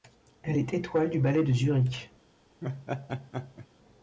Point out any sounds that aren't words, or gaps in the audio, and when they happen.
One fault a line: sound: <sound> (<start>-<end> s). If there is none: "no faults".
sound: laugh (2.6-3.7 s)